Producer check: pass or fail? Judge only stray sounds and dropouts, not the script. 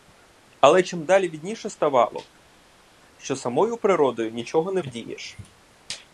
pass